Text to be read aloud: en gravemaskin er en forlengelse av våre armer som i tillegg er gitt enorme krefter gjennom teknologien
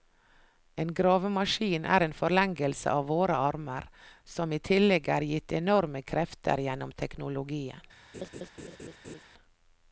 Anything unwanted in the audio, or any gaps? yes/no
yes